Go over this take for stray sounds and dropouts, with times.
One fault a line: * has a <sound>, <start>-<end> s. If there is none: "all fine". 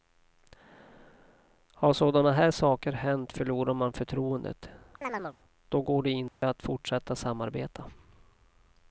* has a chirp, 5.0-5.4 s
* has a dropout, 6.3-6.4 s